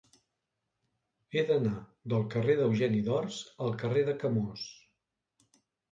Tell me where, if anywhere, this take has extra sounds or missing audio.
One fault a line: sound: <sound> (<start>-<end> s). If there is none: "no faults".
no faults